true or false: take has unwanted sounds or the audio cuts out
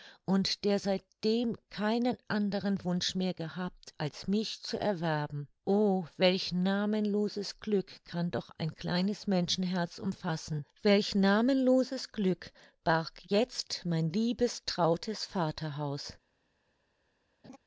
true